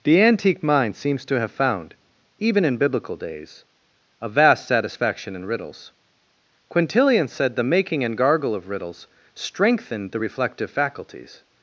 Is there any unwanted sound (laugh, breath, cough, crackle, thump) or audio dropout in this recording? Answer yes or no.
no